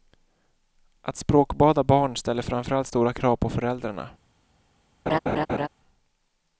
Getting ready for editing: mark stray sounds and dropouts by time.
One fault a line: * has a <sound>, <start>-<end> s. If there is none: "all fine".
* has a laugh, 5.1-5.7 s